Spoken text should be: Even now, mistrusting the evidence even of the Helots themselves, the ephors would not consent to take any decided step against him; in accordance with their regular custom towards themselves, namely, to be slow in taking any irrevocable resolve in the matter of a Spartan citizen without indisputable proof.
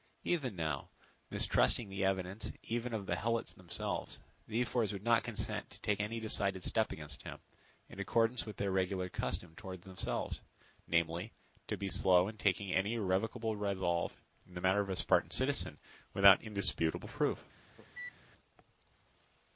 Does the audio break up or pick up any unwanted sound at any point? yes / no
yes